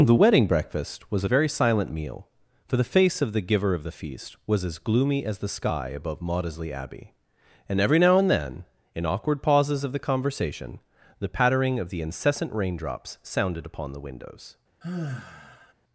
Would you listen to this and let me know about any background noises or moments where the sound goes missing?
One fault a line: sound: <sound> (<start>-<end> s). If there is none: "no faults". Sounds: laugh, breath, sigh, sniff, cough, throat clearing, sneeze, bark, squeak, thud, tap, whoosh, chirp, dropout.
sound: sigh (14.8-15.7 s)